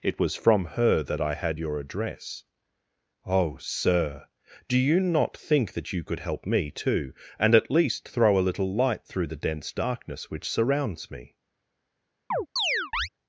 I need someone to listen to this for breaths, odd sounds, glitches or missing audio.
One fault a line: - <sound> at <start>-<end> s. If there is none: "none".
- chirp at 12.3-13.1 s